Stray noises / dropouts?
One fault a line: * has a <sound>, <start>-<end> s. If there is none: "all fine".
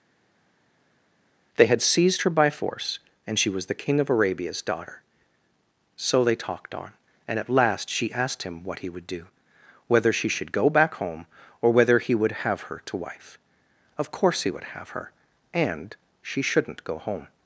all fine